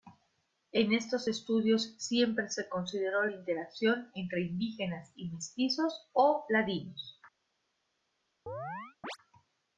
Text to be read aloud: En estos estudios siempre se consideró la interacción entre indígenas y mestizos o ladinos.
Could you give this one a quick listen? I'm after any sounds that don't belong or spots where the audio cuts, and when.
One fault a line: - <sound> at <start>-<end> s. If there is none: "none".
- chirp at 8.5-9.2 s